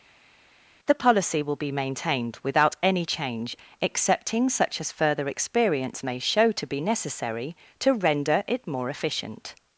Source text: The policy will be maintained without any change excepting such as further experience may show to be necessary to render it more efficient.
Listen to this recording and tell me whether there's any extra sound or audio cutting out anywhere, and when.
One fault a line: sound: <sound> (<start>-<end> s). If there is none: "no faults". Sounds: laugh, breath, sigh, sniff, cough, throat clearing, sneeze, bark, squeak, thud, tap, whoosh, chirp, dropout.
no faults